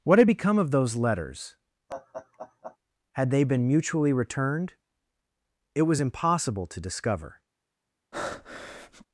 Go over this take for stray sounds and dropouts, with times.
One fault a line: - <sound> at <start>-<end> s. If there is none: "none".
- laugh at 1.9-2.8 s
- breath at 8.1-9.1 s